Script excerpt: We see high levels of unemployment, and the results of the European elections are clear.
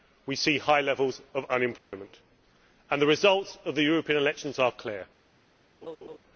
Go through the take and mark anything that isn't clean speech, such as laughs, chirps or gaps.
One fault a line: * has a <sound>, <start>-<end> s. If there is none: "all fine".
* has a dropout, 1.8-1.9 s
* has a laugh, 5.8-6.2 s